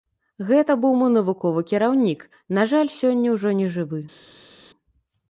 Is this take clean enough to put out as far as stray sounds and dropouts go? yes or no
yes